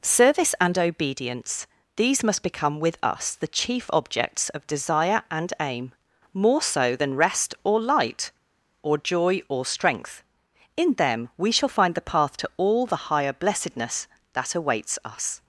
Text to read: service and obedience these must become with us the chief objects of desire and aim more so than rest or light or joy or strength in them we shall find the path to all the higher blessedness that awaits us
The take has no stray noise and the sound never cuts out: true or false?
true